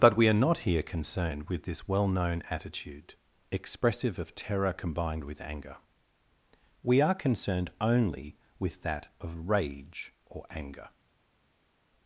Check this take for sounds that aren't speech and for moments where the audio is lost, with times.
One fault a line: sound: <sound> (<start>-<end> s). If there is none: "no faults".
no faults